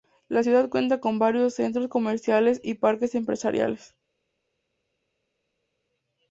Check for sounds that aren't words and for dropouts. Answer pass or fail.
pass